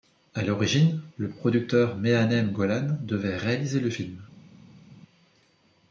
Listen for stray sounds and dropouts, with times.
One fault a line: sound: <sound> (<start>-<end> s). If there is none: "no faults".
no faults